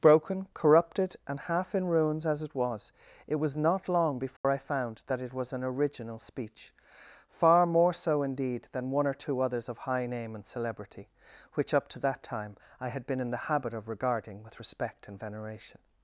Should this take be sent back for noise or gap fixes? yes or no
yes